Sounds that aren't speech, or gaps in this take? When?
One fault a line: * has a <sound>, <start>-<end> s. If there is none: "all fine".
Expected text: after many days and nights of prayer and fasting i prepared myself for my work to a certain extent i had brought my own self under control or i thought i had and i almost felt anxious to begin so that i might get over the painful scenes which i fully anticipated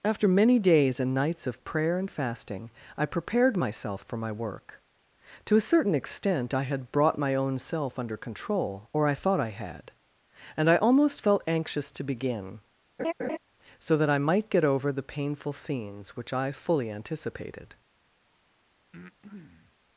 * has a laugh, 13.0-13.4 s
* has a breath, 18.9-19.8 s